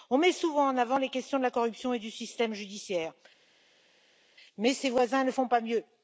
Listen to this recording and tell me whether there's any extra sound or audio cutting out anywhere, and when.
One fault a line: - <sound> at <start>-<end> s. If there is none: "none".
none